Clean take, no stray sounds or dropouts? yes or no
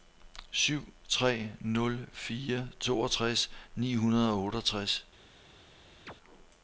no